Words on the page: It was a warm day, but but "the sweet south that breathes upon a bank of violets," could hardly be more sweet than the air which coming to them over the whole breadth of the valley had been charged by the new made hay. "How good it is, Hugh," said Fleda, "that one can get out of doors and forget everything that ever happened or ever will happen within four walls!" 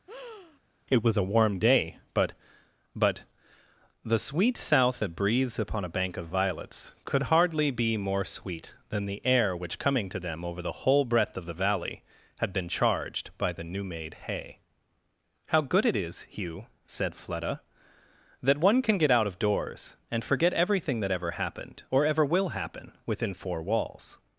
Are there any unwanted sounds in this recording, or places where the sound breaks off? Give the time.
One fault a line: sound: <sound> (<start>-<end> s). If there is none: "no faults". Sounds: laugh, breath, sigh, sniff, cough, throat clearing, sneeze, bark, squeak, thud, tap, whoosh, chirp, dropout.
sound: breath (0.1-0.6 s)